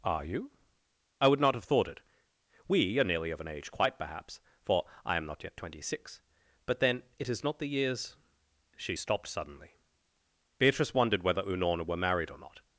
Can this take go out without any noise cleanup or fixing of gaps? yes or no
yes